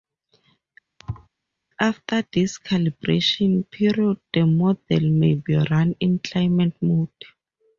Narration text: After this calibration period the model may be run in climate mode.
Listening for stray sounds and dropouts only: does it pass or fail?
fail